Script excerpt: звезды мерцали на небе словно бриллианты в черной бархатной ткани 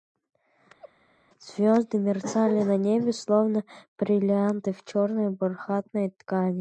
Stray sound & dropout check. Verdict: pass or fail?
fail